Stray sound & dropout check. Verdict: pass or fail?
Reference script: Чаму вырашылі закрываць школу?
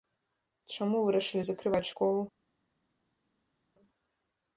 pass